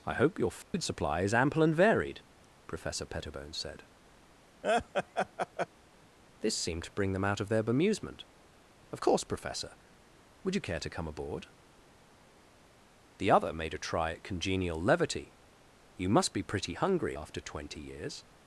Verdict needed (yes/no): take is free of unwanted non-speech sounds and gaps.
no